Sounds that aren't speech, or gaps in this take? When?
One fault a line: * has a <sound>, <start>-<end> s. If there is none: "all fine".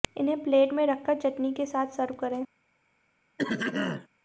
* has a throat clearing, 3.4-4.1 s